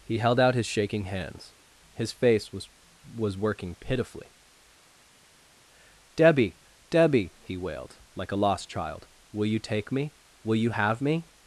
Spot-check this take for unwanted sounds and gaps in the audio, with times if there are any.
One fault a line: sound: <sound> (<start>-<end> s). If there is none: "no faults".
no faults